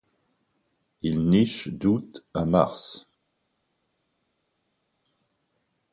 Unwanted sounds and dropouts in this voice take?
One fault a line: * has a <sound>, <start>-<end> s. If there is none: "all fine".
all fine